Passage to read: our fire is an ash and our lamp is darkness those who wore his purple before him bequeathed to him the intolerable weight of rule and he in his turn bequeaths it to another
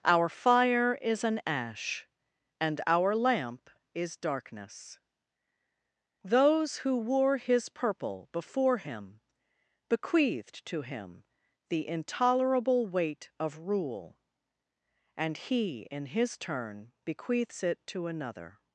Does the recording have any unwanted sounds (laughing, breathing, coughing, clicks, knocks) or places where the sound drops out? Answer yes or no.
no